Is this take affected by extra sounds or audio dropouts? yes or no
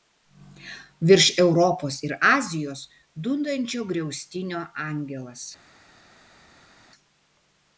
no